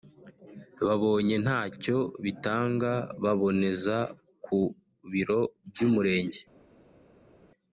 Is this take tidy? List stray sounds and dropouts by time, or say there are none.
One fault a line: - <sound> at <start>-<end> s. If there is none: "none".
none